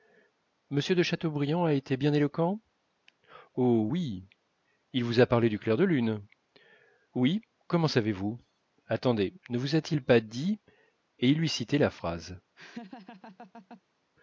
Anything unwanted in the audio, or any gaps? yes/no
yes